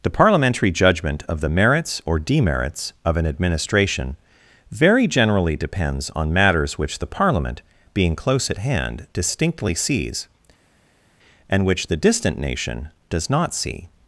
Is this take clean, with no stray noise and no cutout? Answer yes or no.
yes